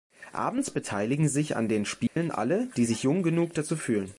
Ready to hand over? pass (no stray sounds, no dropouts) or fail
fail